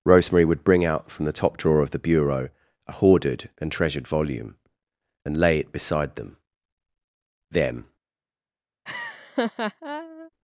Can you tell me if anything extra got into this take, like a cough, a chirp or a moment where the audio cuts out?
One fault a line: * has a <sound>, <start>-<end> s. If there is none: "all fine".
* has a laugh, 8.9-10.3 s